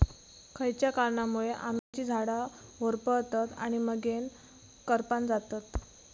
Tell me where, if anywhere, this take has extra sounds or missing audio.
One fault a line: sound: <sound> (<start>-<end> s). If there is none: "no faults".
sound: dropout (1.8-1.9 s)